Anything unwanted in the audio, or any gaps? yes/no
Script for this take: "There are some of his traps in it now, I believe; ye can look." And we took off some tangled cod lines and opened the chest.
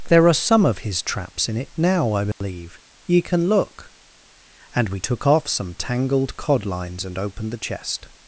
yes